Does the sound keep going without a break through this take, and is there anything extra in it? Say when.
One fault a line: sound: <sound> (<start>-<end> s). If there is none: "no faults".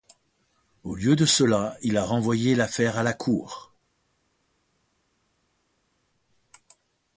no faults